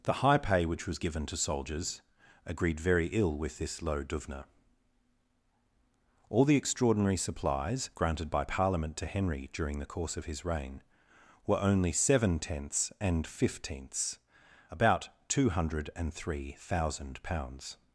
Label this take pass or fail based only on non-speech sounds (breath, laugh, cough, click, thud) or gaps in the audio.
pass